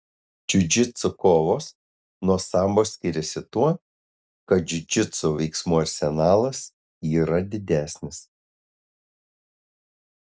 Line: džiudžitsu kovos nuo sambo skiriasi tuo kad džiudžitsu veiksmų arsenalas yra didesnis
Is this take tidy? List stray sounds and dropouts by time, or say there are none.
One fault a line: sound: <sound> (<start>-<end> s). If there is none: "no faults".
no faults